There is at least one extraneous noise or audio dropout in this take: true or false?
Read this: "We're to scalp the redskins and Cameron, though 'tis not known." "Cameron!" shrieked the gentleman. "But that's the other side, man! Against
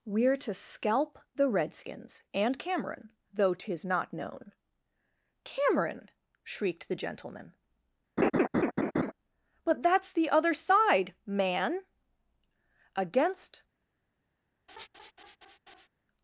true